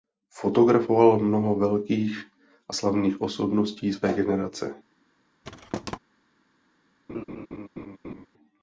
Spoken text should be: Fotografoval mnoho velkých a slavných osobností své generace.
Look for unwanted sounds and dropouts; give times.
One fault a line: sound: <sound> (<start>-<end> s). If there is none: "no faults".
sound: thud (5.4-6.0 s)
sound: laugh (7.1-8.3 s)